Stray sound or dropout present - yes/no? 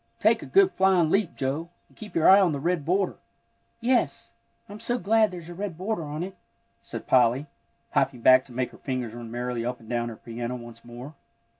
no